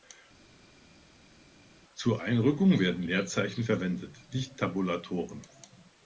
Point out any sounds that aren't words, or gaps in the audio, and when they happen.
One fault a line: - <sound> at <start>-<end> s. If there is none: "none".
none